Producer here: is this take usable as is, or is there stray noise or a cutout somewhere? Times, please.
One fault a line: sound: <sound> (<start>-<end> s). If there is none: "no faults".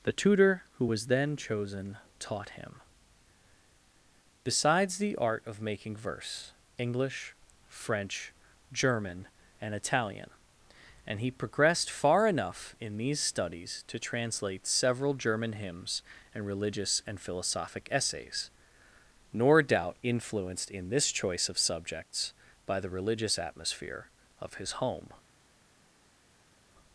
no faults